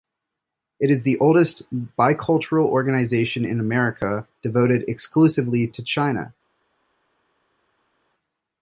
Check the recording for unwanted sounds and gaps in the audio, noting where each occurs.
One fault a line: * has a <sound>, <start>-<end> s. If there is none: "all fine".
all fine